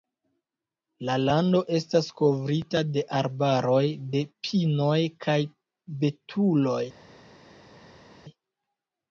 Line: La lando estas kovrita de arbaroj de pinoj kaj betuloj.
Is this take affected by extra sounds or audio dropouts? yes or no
no